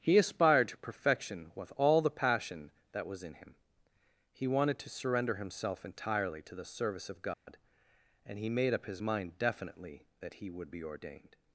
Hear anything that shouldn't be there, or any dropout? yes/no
yes